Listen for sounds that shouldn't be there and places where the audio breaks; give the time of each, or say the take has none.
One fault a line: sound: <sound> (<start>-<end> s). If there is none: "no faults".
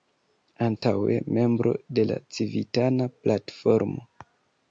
sound: dropout (0.8-0.8 s)